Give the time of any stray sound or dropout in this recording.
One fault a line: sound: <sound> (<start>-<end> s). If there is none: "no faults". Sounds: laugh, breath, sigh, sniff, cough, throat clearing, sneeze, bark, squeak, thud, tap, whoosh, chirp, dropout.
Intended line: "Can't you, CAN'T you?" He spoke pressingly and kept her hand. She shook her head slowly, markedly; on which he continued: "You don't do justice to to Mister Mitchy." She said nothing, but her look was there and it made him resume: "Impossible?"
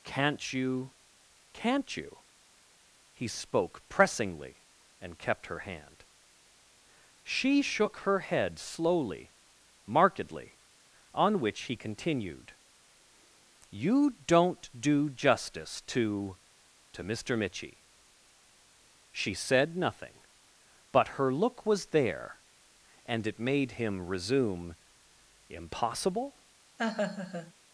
sound: laugh (26.8-27.5 s)